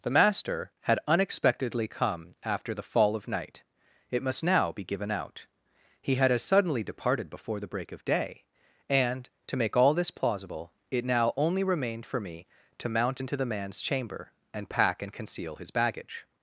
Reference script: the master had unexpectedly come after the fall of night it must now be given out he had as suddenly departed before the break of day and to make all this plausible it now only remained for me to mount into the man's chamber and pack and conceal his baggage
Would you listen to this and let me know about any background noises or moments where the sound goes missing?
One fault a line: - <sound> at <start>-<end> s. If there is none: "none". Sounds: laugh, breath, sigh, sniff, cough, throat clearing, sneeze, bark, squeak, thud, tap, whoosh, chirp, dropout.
none